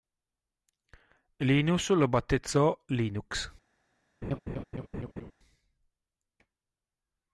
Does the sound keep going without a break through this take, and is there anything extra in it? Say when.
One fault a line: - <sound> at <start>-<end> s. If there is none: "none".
- laugh at 4.2-5.3 s